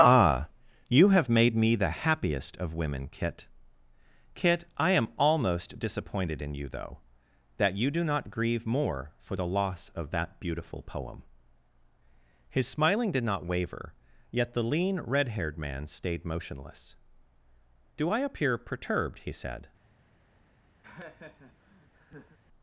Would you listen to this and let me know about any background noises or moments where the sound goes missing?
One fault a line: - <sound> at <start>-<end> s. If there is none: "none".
- laugh at 20.8-22.4 s